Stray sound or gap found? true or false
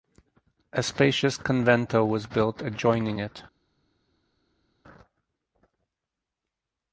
false